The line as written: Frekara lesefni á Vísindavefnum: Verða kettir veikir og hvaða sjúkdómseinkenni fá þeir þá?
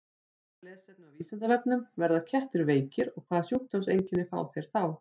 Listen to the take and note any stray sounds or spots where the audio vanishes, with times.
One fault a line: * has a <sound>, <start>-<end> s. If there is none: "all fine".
all fine